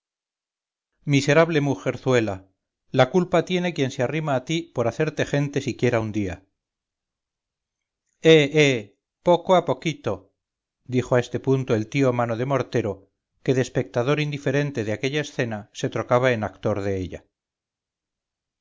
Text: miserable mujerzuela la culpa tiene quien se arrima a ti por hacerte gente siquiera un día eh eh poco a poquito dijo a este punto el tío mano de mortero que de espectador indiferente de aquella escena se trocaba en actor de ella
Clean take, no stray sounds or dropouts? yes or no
yes